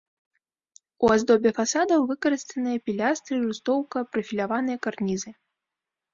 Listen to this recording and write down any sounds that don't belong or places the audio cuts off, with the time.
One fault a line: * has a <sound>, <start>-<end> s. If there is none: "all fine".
all fine